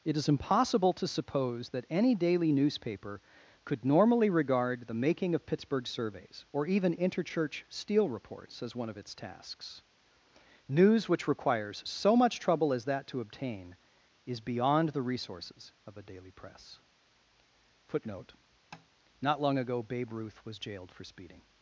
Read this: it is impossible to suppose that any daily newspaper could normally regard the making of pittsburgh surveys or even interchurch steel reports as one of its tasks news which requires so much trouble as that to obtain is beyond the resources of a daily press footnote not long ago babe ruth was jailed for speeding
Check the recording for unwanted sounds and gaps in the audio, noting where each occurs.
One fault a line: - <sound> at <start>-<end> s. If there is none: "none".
- tap at 18.7-18.9 s